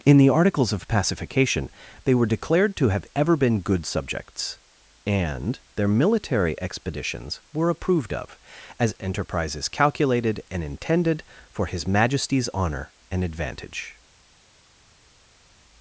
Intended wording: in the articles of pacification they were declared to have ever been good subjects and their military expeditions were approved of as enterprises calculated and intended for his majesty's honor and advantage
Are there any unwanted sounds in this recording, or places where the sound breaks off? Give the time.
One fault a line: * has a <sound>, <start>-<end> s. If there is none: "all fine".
all fine